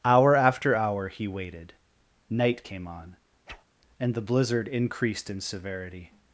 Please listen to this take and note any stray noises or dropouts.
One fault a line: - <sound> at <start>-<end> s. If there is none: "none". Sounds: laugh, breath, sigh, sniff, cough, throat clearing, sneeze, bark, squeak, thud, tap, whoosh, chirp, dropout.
- whoosh at 3.5-3.6 s